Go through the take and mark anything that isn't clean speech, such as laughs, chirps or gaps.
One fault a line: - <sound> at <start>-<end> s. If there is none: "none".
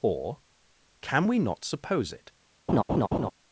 - laugh at 2.7-3.3 s